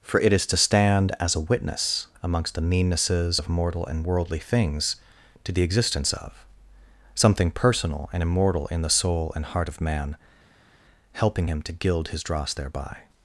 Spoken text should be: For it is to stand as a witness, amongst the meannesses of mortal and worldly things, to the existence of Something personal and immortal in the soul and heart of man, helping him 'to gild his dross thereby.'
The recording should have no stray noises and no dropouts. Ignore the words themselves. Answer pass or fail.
pass